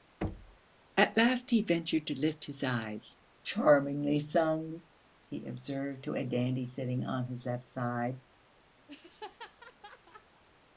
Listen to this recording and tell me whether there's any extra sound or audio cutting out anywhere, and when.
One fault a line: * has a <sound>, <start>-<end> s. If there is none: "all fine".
* has a thud, 0.2-0.6 s
* has a laugh, 8.9-10.4 s